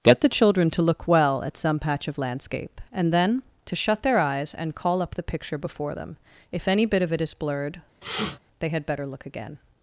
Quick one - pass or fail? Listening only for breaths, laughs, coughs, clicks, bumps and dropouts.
fail